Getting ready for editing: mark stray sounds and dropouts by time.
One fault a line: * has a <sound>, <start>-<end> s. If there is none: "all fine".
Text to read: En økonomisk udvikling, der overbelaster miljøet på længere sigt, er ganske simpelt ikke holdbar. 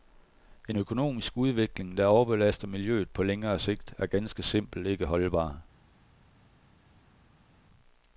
all fine